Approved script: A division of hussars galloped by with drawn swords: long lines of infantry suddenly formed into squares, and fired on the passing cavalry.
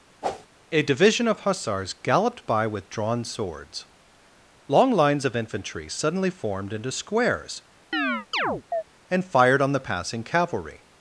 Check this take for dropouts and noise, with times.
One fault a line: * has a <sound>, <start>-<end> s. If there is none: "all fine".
* has a whoosh, 0.2-0.5 s
* has a chirp, 7.9-8.8 s